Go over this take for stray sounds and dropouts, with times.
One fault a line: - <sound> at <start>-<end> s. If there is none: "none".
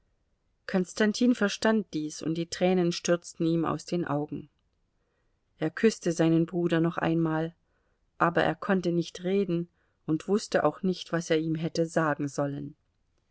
none